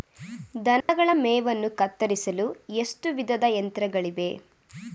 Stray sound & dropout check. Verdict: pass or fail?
fail